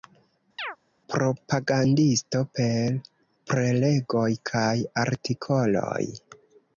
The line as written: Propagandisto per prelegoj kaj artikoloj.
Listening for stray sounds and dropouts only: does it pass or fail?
fail